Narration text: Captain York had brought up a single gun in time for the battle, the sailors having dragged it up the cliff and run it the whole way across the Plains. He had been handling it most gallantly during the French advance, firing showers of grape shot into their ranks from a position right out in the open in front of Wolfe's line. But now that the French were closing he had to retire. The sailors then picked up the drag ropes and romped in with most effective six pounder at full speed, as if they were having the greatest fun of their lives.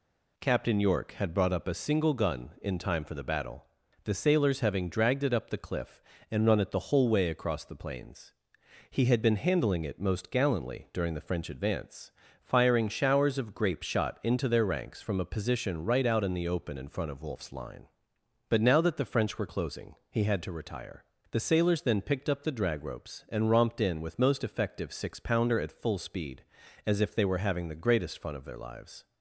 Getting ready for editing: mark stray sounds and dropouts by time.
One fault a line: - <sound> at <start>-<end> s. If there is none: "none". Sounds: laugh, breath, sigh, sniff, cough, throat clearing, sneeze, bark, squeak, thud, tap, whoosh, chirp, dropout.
none